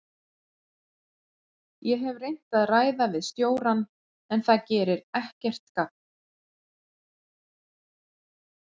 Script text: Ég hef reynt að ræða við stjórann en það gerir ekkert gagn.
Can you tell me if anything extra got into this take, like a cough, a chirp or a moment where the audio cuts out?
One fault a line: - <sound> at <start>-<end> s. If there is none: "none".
none